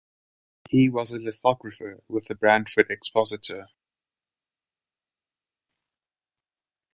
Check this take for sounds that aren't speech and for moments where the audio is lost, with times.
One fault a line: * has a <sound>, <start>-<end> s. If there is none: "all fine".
all fine